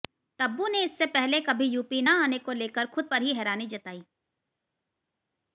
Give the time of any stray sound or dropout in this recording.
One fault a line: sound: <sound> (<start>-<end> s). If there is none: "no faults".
no faults